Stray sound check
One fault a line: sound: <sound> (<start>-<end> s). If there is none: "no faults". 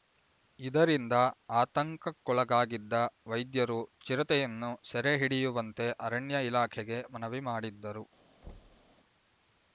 sound: thud (8.4-8.9 s)